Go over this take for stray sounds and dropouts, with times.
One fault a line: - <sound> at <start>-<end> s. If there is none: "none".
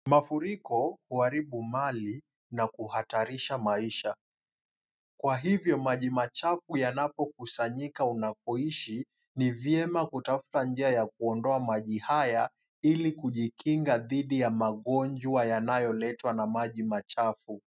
none